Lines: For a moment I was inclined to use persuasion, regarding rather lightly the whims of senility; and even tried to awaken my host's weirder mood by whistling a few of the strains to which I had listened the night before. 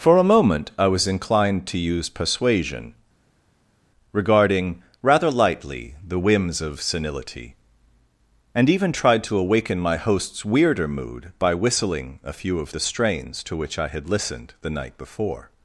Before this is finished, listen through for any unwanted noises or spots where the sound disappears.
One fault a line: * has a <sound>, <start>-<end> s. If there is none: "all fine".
all fine